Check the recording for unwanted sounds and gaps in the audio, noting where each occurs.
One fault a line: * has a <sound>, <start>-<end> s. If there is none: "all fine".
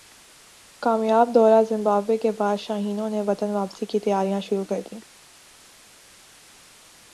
all fine